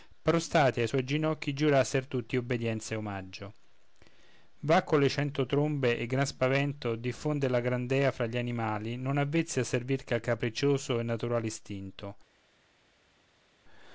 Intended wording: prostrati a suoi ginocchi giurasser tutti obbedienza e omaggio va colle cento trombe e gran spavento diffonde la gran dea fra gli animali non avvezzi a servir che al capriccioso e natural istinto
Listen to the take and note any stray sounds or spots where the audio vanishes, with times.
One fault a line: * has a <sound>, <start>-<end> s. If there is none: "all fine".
all fine